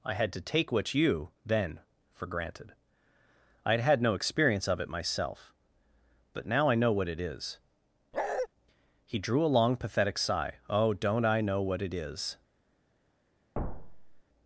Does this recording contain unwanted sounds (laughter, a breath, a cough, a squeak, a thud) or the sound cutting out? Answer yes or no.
yes